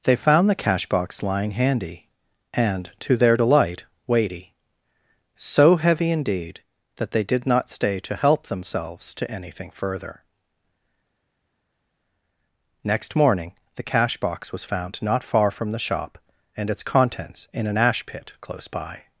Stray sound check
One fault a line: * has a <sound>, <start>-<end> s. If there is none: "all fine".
all fine